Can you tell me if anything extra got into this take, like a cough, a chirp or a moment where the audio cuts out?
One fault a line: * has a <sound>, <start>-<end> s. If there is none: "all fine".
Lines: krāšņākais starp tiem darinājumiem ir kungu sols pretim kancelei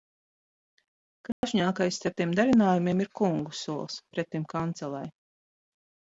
* has a dropout, 1.3-1.4 s